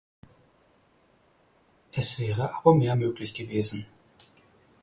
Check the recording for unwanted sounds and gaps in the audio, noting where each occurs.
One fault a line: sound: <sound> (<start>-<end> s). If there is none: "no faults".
no faults